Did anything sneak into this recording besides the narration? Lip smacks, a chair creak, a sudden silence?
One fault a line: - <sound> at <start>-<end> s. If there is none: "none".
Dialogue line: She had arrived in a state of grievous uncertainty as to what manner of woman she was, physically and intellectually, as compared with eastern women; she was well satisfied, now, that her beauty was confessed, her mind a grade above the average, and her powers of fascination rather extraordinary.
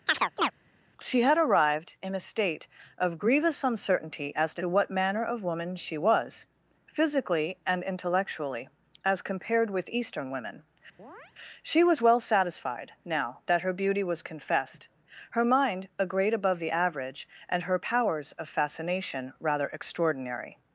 - chirp at 0.1-0.5 s
- chirp at 11.0-11.3 s